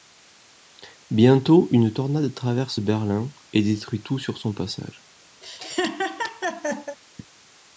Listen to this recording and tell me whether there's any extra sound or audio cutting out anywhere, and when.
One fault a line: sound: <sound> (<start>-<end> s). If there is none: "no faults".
sound: laugh (5.4-7.0 s)